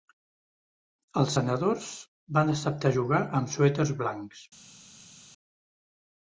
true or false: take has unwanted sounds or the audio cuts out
false